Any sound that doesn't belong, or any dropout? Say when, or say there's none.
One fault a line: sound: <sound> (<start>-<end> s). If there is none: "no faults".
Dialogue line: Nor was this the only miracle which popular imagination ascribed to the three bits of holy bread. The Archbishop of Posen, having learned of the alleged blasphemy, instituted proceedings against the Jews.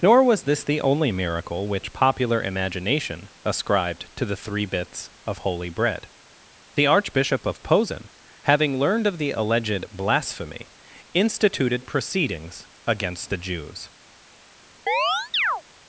sound: chirp (14.9-15.6 s)